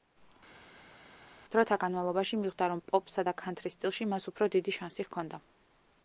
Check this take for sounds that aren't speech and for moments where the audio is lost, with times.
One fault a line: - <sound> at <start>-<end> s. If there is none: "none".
none